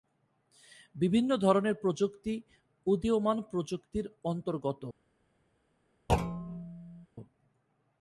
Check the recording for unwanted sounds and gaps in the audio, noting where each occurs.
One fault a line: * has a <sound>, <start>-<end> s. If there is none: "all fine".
* has a thud, 6.1-7.1 s